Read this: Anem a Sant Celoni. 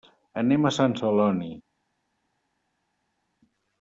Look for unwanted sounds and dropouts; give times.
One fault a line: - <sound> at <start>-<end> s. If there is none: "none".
none